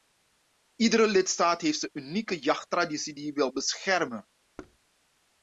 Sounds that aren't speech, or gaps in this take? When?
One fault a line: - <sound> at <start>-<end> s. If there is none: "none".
- thud at 4.6-4.8 s